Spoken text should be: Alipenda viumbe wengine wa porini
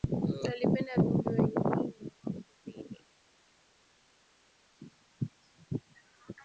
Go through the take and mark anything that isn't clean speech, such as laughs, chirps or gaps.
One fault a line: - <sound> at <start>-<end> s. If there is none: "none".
none